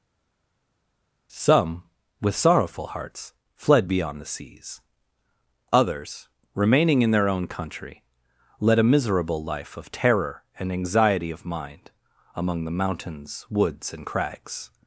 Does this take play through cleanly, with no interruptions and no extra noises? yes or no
yes